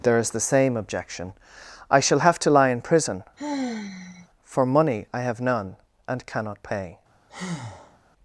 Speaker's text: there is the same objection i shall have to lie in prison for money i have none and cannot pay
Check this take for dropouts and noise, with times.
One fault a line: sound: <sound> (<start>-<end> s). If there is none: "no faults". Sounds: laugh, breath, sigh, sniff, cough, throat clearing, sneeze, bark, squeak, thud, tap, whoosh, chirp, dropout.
sound: sigh (3.4-4.3 s)
sound: breath (7.3-8.0 s)